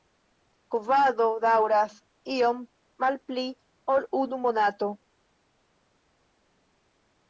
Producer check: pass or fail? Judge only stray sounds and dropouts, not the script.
pass